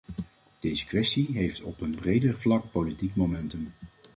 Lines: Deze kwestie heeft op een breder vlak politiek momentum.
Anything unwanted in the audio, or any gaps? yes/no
no